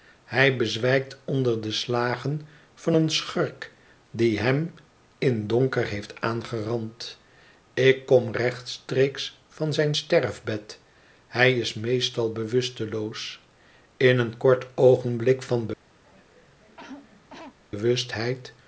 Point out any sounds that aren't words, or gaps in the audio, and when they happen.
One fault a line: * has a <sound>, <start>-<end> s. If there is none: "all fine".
* has a cough, 16.0-17.6 s